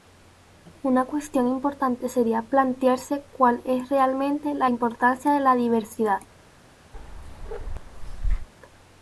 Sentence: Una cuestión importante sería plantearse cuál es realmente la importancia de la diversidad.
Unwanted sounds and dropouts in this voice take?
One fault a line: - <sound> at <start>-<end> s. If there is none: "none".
- bark at 6.9-8.5 s